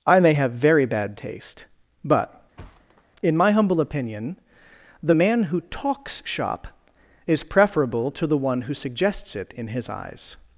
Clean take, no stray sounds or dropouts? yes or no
no